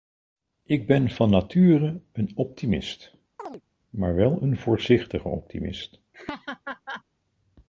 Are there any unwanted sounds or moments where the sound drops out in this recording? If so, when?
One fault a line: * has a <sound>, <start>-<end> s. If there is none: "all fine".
* has a chirp, 3.4-3.6 s
* has a laugh, 6.1-7.0 s